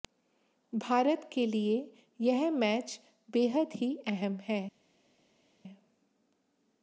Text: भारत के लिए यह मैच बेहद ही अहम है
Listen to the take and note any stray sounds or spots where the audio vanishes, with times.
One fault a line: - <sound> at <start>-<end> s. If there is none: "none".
none